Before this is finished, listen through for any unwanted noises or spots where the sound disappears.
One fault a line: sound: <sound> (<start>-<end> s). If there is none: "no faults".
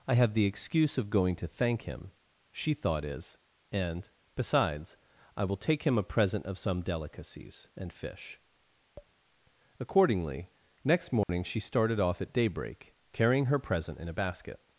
sound: tap (9.0-9.1 s)
sound: dropout (11.2-11.3 s)